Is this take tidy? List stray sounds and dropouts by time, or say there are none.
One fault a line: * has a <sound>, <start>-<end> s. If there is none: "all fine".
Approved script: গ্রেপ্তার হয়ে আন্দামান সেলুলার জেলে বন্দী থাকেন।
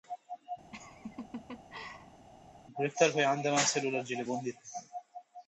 * has a laugh, 0.7-2.3 s